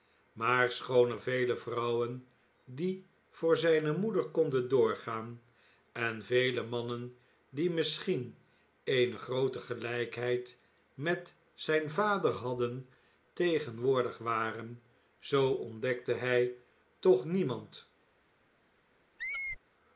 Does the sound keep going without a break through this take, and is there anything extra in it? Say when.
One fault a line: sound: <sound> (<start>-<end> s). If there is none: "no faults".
sound: squeak (19.2-19.6 s)